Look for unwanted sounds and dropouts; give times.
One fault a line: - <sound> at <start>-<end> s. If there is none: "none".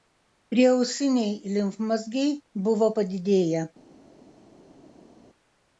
none